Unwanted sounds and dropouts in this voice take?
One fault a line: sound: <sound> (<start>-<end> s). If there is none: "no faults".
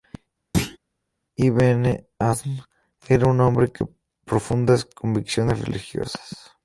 sound: thud (0.5-0.8 s)